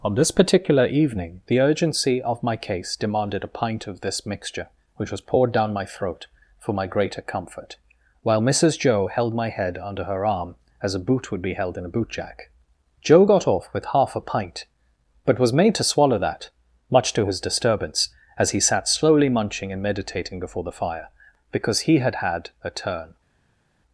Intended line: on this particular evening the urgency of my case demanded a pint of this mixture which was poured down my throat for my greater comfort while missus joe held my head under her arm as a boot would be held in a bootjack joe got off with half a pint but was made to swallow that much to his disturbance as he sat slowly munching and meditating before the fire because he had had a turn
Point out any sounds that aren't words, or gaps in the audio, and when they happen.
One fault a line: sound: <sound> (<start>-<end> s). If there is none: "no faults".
no faults